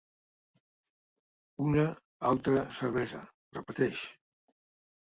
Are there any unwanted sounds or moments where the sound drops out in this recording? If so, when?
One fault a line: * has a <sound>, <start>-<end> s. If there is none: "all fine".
all fine